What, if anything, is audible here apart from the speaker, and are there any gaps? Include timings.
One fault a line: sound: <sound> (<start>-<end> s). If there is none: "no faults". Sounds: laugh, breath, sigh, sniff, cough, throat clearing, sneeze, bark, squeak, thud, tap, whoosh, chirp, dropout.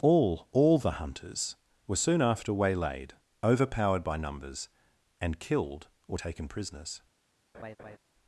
sound: laugh (7.5-8.0 s)